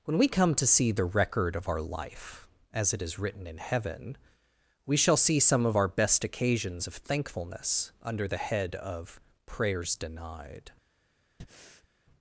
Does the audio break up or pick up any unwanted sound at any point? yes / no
yes